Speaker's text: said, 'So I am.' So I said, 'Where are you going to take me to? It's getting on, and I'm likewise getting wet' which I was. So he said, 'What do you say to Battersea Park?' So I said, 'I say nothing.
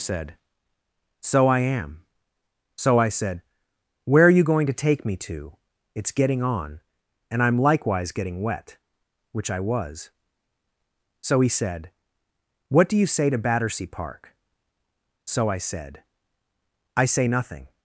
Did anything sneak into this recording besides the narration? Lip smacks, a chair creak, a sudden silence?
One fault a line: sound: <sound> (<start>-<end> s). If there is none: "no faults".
no faults